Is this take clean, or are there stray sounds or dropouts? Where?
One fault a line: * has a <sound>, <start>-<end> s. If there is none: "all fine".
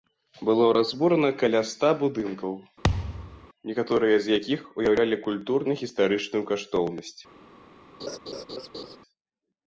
* has a thud, 2.8-3.5 s
* has a laugh, 8.0-9.0 s